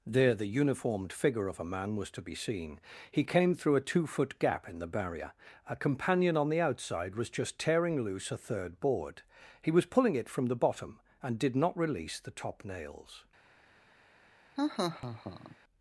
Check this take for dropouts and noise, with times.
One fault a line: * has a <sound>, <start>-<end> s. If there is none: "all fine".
* has a laugh, 14.6-15.6 s